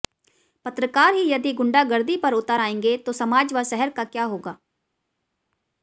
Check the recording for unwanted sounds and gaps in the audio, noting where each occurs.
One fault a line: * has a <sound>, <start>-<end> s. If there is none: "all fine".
all fine